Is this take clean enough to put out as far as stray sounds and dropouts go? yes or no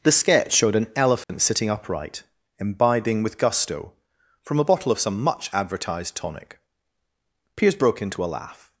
no